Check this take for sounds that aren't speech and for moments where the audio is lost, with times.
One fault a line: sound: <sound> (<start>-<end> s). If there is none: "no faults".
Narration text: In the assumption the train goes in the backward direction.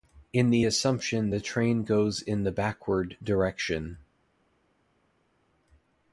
no faults